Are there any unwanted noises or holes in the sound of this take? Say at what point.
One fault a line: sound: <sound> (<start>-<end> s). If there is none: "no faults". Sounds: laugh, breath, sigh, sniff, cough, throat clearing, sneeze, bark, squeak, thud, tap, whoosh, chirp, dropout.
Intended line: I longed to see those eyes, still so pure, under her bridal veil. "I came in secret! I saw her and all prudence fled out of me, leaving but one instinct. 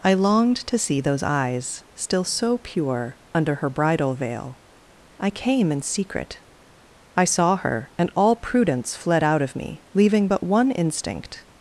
no faults